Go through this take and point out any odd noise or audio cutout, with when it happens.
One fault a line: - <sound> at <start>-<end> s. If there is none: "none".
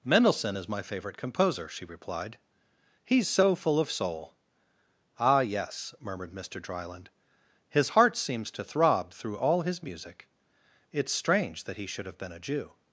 none